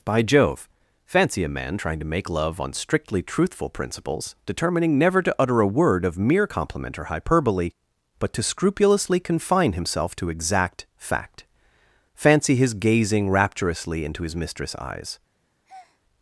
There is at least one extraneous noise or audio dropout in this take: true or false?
true